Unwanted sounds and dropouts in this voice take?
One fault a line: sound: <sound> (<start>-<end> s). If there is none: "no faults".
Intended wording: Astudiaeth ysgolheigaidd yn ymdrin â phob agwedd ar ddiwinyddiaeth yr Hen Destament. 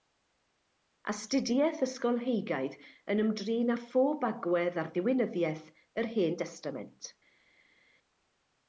no faults